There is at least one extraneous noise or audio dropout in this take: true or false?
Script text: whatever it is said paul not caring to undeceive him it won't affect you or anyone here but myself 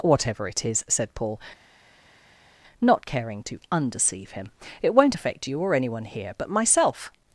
false